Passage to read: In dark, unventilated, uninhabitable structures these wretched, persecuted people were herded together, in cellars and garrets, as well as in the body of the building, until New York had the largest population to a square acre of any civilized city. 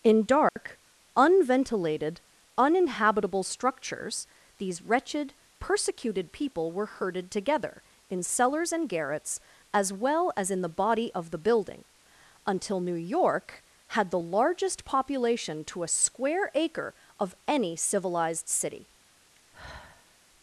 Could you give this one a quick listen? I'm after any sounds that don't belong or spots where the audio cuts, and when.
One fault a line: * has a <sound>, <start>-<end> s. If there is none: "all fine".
* has a dropout, 0.5-0.6 s
* has a sigh, 19.4-20.2 s